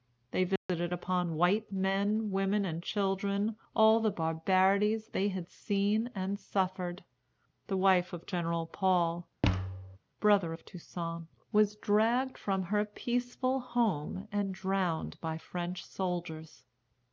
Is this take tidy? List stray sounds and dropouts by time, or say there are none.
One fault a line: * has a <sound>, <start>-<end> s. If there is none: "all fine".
* has a dropout, 0.6-0.7 s
* has a thud, 9.4-10.0 s